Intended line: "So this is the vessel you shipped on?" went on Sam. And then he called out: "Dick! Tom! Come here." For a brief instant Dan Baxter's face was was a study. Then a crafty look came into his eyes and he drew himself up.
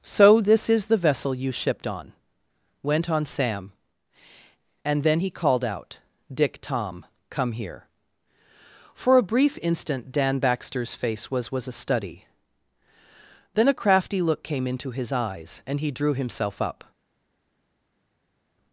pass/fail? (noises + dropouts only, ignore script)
pass